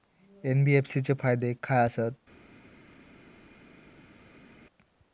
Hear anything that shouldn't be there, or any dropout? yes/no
no